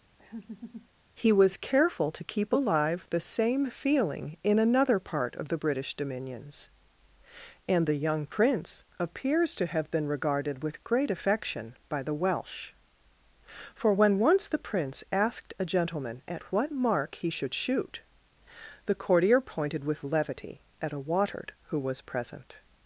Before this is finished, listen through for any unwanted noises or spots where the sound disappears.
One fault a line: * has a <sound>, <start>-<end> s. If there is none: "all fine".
* has a laugh, 0.2-0.9 s